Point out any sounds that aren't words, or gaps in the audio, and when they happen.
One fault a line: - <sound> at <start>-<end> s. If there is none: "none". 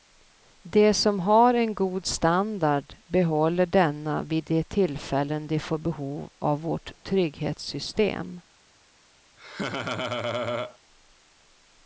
- laugh at 9.4-10.8 s